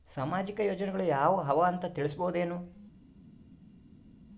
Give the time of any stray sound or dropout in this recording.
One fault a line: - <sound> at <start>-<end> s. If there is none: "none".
none